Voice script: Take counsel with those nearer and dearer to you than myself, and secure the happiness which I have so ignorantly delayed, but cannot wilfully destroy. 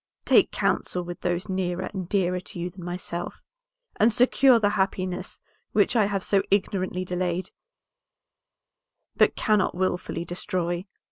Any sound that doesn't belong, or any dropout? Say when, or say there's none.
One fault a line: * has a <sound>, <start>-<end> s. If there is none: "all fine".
all fine